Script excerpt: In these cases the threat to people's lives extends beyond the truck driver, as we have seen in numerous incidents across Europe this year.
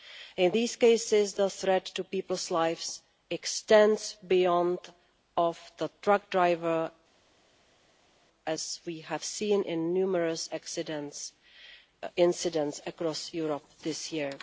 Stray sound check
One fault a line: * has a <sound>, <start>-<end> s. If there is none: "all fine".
all fine